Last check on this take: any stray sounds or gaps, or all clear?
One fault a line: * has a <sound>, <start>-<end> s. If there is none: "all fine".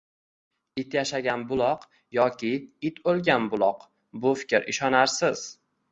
all fine